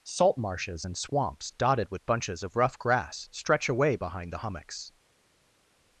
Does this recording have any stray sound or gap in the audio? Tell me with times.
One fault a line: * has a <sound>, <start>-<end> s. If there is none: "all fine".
all fine